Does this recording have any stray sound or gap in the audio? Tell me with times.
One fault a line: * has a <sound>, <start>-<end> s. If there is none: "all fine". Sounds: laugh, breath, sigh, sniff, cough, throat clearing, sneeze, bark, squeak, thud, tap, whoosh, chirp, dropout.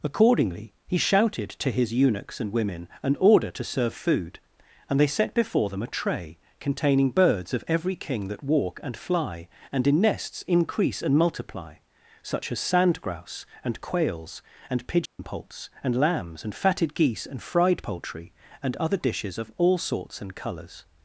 * has a dropout, 15.1-15.2 s